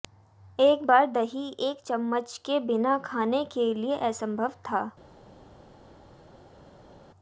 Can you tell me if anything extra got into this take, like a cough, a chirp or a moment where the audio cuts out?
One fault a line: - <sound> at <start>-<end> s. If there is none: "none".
none